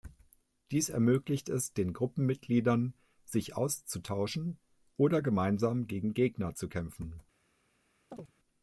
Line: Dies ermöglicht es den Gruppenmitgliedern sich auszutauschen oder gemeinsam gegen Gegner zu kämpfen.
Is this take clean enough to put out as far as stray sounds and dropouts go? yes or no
no